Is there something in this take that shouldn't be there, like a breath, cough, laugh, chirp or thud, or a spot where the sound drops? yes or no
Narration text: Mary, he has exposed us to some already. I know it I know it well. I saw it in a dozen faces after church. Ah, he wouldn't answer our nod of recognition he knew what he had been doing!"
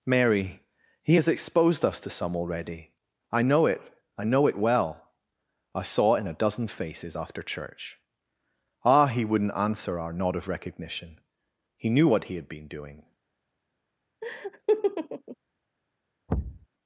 yes